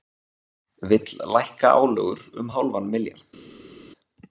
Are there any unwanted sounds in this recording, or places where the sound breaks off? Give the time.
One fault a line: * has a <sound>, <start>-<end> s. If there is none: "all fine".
all fine